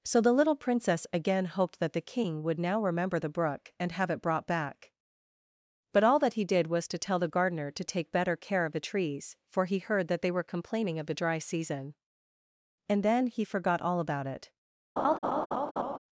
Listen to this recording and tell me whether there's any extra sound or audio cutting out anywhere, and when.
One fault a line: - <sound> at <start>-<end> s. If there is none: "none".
- laugh at 15.0-16.0 s